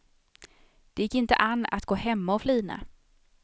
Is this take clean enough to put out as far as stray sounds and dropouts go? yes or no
yes